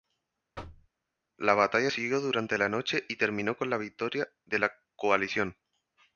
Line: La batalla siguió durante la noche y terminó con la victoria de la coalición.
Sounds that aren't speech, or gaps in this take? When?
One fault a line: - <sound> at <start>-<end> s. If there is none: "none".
- thud at 0.6-0.9 s